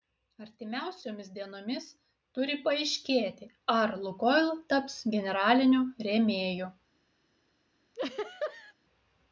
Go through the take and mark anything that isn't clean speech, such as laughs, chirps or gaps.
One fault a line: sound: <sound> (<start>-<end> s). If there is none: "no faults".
sound: laugh (7.9-8.7 s)